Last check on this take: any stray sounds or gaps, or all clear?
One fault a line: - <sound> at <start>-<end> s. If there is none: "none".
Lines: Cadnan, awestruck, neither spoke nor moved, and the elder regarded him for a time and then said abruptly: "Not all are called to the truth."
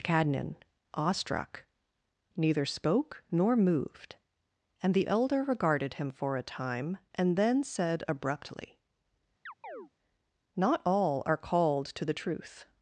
- chirp at 9.5-9.9 s